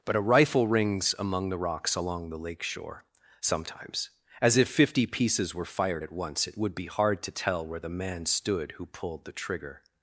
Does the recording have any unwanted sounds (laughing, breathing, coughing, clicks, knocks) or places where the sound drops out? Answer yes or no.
no